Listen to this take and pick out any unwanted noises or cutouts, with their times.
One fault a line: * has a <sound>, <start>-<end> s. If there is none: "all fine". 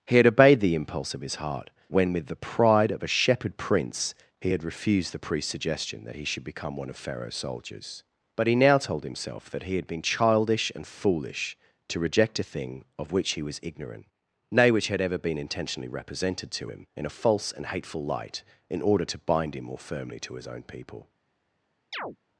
* has a chirp, 21.9-22.2 s